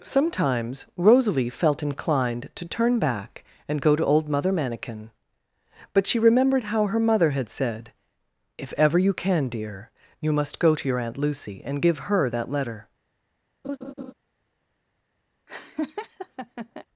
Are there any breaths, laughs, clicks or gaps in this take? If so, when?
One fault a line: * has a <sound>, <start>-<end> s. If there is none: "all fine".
* has a laugh, 13.6-14.1 s
* has a laugh, 15.5-16.9 s